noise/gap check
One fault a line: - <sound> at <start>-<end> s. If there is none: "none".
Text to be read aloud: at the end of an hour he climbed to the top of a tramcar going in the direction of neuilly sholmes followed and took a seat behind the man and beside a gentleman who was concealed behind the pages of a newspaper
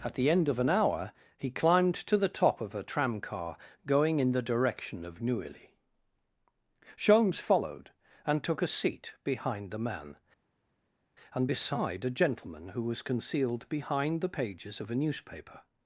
none